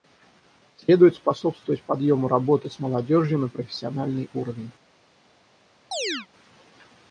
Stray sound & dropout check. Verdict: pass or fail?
fail